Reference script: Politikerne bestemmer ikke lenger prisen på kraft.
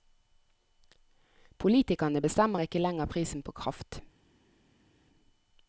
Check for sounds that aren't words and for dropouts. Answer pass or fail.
pass